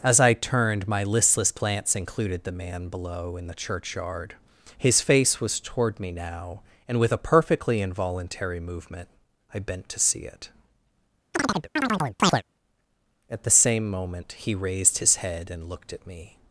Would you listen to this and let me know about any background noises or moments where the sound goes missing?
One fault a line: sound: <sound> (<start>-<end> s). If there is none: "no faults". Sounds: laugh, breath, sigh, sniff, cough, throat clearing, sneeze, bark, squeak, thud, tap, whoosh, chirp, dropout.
sound: chirp (11.3-12.4 s)